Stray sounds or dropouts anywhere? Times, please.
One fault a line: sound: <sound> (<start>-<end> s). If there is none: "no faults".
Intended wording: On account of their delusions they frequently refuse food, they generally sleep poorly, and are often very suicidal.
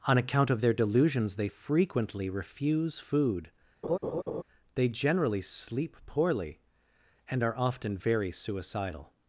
sound: laugh (3.8-4.4 s)